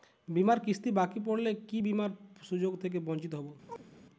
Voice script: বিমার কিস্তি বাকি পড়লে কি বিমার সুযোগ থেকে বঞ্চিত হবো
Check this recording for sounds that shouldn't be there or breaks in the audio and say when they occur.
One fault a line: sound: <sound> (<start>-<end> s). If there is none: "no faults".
sound: chirp (3.7-3.9 s)